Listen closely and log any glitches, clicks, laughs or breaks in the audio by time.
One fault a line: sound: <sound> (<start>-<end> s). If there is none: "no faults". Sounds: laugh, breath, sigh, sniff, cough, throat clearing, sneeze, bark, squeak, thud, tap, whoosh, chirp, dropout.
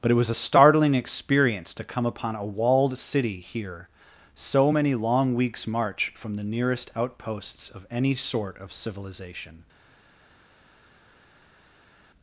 no faults